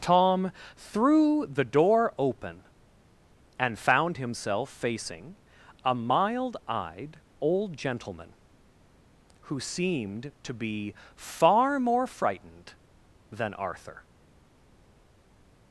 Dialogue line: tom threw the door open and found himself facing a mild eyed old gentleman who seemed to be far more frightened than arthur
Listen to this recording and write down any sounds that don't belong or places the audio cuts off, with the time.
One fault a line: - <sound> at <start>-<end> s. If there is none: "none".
none